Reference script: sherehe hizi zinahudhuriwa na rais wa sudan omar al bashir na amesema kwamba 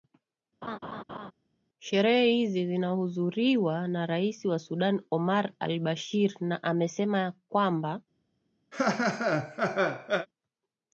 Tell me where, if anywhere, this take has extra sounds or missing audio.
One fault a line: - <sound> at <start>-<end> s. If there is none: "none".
- laugh at 0.6-1.3 s
- laugh at 8.7-10.3 s